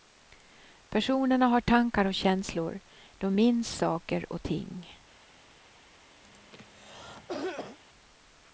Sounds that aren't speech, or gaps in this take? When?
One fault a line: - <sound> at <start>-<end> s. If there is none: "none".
- cough at 6.2-7.8 s